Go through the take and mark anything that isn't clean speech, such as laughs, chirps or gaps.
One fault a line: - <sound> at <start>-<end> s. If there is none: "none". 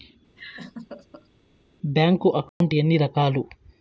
- laugh at 0.4-1.3 s
- dropout at 2.5-2.6 s